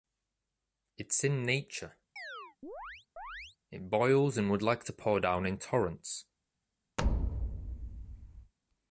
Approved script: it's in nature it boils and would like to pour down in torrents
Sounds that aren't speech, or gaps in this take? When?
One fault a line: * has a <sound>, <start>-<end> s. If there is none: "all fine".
* has a chirp, 2.2-3.6 s
* has a thud, 7.0-8.5 s